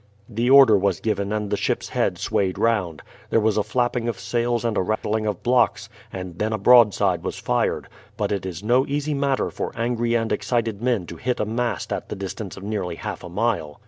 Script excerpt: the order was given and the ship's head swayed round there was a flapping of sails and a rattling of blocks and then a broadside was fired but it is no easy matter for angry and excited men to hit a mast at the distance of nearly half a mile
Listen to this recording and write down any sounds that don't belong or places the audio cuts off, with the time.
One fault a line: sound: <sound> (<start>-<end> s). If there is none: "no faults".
sound: dropout (5.0-5.0 s)